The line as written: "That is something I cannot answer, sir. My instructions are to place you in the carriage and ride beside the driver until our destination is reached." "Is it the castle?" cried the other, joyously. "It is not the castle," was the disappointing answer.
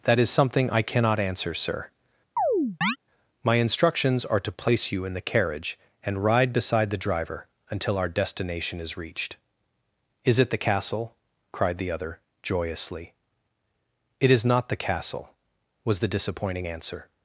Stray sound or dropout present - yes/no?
yes